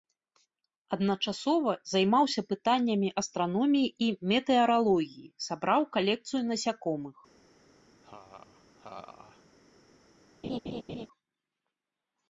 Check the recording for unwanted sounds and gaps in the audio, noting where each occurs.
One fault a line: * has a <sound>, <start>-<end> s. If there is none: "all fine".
* has a laugh, 8.0-9.5 s
* has a laugh, 10.4-11.1 s